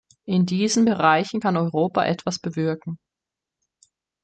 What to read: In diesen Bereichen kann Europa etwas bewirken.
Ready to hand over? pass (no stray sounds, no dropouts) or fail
pass